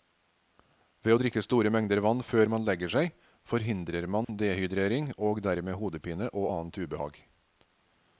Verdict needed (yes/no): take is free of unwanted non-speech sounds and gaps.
no